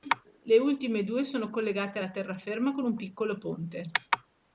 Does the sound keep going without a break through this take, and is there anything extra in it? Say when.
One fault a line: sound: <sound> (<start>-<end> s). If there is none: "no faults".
no faults